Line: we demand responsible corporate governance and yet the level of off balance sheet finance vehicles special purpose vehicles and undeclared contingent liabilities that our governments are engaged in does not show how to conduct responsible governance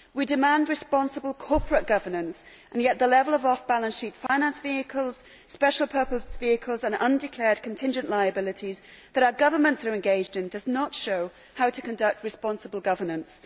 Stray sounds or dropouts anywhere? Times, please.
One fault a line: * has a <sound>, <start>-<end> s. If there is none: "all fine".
* has a dropout, 4.3-4.3 s